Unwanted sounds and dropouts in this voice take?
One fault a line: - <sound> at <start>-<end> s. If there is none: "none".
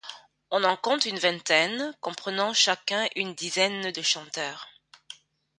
none